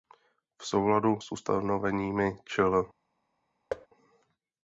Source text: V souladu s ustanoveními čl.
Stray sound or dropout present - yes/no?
yes